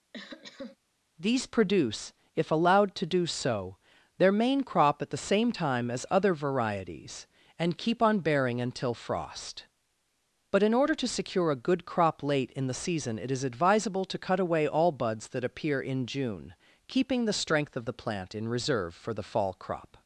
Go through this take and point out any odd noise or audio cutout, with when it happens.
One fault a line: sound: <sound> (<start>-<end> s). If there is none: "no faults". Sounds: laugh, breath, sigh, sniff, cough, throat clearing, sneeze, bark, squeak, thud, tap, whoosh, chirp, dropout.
sound: cough (0.1-0.8 s)